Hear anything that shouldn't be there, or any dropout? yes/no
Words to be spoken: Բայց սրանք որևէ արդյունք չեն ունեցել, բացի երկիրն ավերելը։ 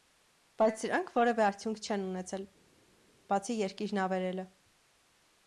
no